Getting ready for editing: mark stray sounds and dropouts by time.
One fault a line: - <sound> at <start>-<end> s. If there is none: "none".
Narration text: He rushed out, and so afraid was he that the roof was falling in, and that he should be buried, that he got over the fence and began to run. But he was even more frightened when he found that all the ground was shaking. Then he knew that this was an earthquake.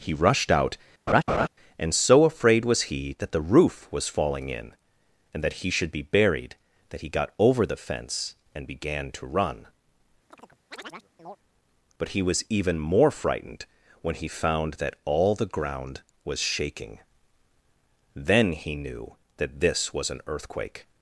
- laugh at 1.1-1.5 s
- chirp at 10.3-11.4 s